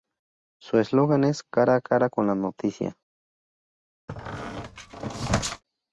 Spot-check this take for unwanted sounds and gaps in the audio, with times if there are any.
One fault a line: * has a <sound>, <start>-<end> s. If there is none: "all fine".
* has a squeak, 4.1-5.6 s